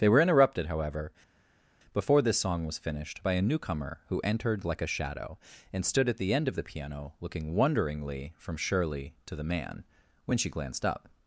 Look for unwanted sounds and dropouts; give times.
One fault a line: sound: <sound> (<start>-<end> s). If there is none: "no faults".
no faults